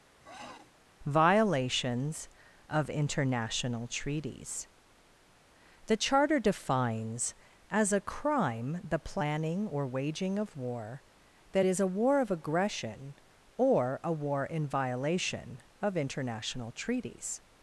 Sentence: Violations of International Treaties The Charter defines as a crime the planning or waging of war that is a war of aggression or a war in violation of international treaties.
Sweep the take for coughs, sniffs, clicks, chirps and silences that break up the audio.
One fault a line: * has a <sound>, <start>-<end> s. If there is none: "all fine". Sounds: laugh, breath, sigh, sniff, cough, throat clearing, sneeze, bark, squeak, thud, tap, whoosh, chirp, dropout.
* has a sniff, 0.2-0.7 s